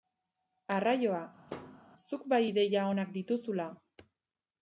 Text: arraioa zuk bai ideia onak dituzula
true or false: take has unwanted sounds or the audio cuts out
true